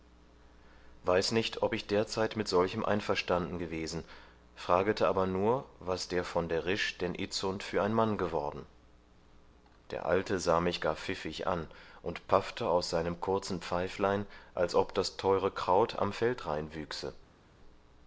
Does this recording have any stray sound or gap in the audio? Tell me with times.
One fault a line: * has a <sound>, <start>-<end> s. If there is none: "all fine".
all fine